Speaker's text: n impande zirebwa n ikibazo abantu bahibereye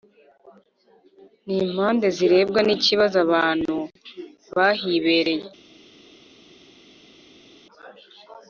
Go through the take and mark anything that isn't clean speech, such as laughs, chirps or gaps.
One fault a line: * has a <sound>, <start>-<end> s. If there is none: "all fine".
all fine